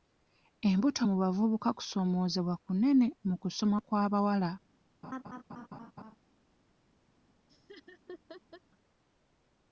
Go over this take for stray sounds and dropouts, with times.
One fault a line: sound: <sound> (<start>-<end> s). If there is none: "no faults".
sound: laugh (5.0-6.2 s)
sound: laugh (7.5-8.6 s)